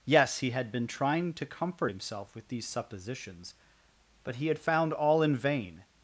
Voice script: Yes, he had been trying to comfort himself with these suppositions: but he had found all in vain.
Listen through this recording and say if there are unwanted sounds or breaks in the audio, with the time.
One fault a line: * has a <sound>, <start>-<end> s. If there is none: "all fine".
all fine